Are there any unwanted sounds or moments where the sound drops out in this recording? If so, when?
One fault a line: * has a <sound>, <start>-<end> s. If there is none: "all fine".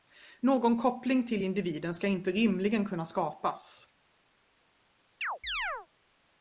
* has a chirp, 5.2-5.9 s